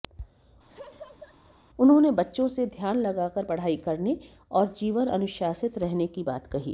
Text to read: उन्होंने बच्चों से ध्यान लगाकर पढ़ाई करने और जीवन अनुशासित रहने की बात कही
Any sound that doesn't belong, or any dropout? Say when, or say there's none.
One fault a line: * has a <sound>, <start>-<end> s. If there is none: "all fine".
* has a laugh, 0.7-1.6 s